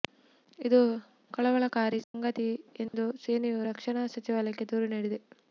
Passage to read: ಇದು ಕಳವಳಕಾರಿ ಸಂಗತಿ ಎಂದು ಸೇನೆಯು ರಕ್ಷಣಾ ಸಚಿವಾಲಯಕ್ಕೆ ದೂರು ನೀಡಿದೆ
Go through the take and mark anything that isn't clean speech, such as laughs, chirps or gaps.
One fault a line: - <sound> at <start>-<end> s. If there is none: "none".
- dropout at 2.0-2.1 s
- dropout at 2.9-2.9 s